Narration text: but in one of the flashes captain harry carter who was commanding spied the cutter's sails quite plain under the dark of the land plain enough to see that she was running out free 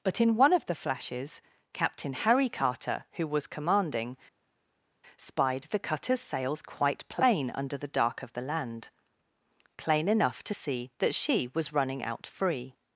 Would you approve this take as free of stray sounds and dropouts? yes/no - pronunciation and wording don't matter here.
yes